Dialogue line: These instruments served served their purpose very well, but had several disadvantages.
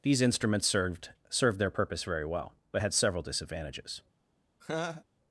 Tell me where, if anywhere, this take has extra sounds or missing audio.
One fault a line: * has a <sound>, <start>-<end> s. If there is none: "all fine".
* has a laugh, 4.6-5.0 s